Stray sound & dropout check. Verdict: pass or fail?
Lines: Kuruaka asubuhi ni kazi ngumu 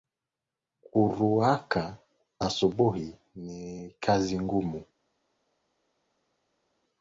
pass